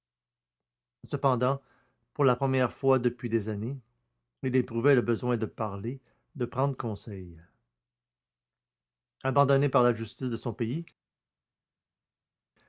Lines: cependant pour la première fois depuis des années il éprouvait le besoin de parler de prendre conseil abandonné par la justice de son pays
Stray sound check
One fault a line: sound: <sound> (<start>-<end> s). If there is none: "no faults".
no faults